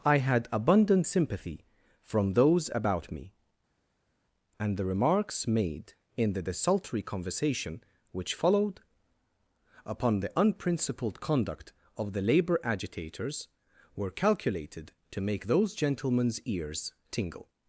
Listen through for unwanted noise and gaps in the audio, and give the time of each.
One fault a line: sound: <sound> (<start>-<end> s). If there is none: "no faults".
no faults